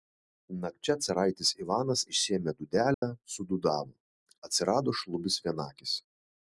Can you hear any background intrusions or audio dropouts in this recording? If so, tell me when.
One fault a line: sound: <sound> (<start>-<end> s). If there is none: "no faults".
sound: dropout (2.9-3.0 s)